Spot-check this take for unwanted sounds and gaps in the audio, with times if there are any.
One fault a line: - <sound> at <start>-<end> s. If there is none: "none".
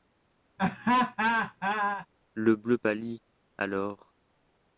- laugh at 0.6-2.1 s